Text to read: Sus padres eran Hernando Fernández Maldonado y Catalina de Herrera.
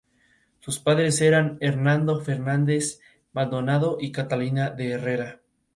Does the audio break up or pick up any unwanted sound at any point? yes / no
no